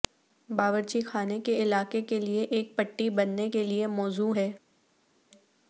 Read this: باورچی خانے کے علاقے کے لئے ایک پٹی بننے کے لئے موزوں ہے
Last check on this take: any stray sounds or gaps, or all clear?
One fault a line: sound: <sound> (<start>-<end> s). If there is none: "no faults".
no faults